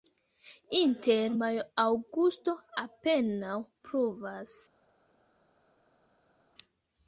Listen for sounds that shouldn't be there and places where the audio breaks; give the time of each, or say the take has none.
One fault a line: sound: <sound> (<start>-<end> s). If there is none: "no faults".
no faults